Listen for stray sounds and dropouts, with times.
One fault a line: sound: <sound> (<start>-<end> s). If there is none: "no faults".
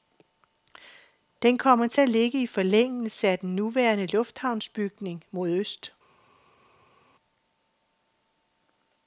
no faults